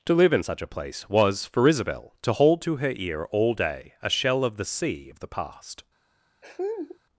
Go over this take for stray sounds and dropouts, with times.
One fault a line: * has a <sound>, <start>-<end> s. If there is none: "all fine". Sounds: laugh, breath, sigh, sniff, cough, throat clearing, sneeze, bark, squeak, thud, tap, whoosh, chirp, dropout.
* has a laugh, 6.4-7.0 s